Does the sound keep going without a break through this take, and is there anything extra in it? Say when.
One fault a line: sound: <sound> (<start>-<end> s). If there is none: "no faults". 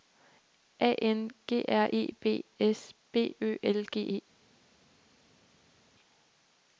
no faults